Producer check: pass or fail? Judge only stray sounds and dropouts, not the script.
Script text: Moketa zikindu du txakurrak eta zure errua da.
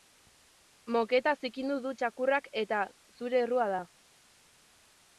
pass